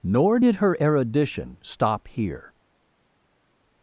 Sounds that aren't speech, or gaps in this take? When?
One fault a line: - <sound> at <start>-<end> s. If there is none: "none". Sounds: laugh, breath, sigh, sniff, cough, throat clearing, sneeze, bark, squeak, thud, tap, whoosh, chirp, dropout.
none